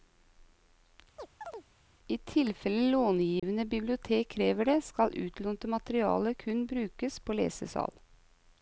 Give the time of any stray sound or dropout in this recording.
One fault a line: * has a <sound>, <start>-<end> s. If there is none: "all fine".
* has a chirp, 1.2-1.7 s
* has a dropout, 3.4-3.4 s